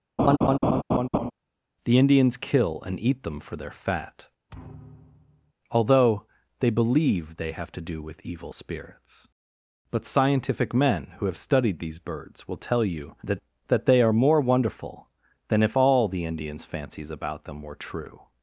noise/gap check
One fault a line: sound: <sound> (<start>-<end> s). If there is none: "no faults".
sound: laugh (0.2-1.3 s)
sound: thud (4.5-5.5 s)